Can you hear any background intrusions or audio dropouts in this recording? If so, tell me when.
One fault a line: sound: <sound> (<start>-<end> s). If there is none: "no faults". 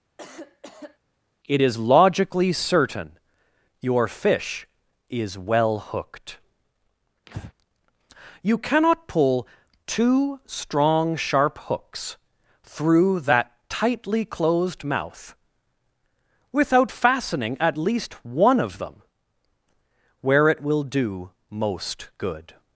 sound: cough (0.2-1.0 s)
sound: breath (7.3-7.5 s)